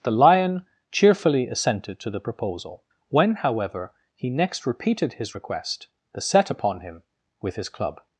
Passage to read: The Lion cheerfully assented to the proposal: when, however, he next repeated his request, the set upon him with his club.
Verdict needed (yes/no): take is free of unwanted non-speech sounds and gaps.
yes